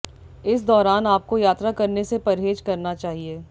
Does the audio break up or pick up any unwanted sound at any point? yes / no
no